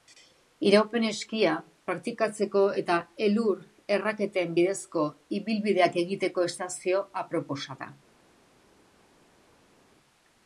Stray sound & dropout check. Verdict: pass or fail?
pass